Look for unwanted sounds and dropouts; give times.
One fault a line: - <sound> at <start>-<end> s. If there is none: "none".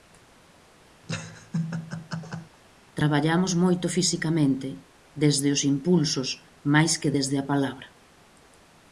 - laugh at 1.0-2.6 s